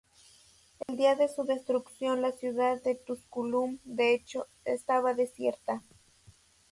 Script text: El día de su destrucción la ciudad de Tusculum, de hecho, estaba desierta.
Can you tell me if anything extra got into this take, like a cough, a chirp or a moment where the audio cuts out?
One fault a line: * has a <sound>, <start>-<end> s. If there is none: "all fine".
* has a dropout, 0.8-0.9 s